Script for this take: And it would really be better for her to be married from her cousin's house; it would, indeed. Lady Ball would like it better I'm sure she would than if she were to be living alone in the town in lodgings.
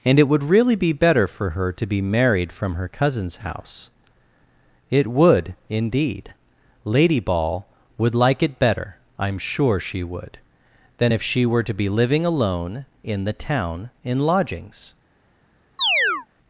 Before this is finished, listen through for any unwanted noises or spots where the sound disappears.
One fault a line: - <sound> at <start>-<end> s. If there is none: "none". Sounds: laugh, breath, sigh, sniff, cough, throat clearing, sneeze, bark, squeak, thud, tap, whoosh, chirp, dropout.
- chirp at 15.8-16.3 s